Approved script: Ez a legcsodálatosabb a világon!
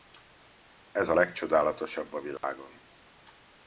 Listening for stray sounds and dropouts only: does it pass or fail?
fail